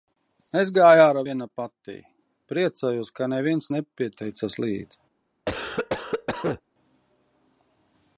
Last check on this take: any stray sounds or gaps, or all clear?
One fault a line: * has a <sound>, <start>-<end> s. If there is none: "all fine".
* has a cough, 5.5-6.6 s